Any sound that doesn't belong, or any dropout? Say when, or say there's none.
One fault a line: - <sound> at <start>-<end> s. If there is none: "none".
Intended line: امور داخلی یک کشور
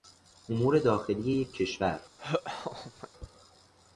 - laugh at 2.2-3.1 s